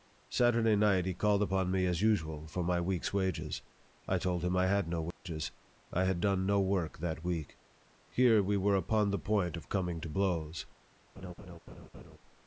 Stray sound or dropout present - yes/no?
yes